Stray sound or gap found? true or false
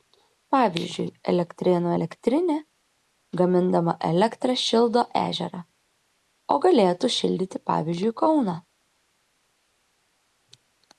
false